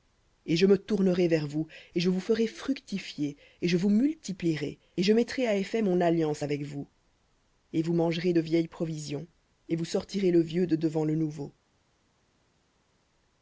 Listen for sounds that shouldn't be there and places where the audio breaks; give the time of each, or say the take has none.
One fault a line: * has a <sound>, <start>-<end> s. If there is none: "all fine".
all fine